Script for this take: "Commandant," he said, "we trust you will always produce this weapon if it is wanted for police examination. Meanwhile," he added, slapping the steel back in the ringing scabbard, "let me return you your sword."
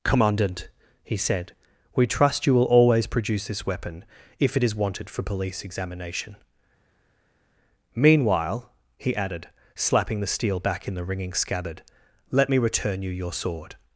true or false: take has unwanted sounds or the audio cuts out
false